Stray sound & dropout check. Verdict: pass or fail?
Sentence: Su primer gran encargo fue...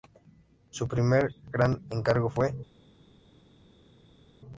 pass